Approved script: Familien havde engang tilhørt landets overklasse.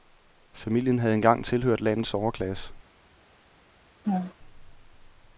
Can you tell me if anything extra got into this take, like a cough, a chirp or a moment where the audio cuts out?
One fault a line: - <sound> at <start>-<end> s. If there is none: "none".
- laugh at 4.0-4.3 s